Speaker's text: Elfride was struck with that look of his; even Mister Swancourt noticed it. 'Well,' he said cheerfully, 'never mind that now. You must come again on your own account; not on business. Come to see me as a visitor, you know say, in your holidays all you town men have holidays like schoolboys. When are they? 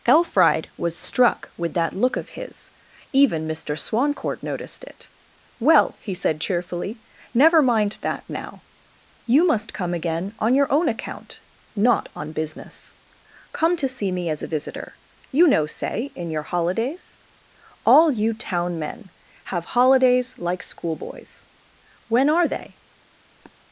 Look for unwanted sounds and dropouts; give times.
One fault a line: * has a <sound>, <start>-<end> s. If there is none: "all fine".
* has a sniff, 23.4-23.5 s